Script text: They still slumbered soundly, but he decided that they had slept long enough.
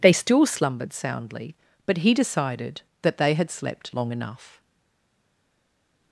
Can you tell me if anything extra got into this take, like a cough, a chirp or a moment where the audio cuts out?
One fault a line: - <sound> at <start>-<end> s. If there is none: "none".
none